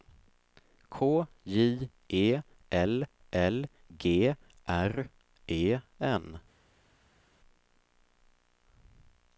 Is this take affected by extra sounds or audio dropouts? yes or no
no